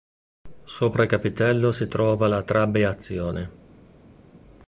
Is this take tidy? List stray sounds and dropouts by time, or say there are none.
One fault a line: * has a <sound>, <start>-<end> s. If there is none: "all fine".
all fine